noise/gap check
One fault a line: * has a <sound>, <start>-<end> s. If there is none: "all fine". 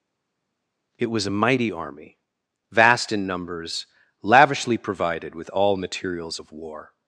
all fine